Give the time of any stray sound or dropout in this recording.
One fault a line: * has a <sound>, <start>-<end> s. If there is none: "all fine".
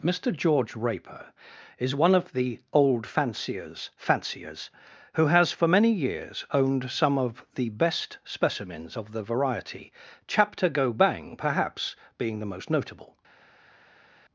all fine